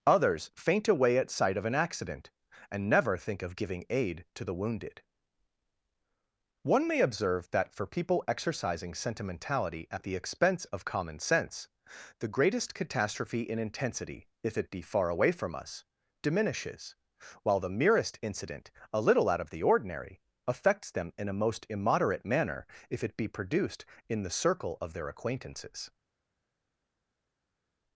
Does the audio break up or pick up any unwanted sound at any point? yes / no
no